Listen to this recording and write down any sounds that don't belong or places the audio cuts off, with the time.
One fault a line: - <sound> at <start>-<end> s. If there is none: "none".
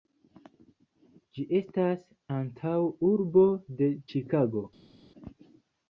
none